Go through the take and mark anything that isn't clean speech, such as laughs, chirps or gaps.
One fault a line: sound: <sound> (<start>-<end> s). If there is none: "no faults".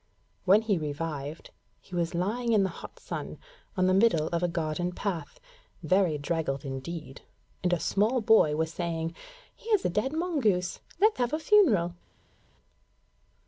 no faults